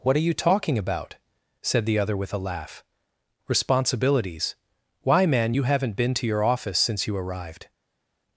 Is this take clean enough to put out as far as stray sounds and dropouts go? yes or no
yes